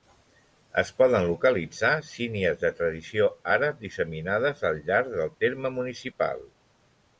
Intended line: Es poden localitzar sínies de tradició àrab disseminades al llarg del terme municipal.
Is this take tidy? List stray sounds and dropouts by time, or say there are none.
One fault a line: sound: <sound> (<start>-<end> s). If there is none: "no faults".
no faults